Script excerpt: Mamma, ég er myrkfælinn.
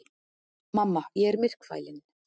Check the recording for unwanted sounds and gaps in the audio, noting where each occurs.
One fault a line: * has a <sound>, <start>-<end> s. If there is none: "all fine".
all fine